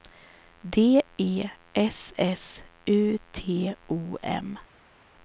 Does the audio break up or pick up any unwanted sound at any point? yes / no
no